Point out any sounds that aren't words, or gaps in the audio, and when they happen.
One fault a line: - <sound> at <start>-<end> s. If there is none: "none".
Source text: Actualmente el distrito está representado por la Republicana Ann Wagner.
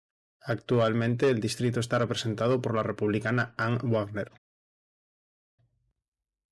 none